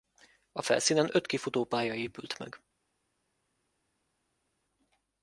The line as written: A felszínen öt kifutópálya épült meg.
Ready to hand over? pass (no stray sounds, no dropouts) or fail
pass